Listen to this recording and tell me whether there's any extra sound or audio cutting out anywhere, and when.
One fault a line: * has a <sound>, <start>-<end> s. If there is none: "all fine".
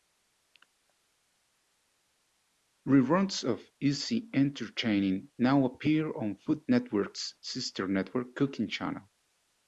all fine